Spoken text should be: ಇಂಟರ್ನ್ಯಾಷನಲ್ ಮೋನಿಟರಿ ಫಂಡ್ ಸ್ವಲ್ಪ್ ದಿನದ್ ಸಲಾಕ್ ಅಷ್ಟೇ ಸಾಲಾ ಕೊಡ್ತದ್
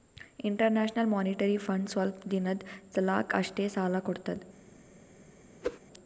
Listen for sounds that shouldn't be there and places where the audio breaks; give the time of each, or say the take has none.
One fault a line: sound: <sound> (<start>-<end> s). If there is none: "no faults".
sound: whoosh (5.6-5.8 s)